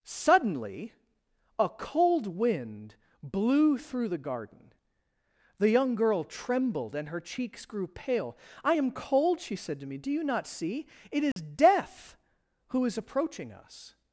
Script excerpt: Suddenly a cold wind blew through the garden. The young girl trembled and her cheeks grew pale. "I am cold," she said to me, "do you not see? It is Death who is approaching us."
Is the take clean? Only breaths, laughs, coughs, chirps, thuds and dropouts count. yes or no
no